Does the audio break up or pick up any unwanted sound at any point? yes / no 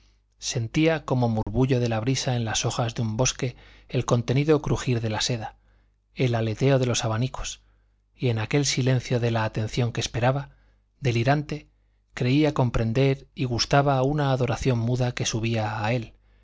yes